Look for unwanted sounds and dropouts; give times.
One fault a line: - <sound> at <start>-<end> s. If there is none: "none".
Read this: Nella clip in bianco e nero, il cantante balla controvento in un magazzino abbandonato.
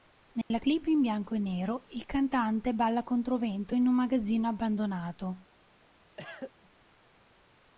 - dropout at 0.4-0.5 s
- cough at 6.2-6.5 s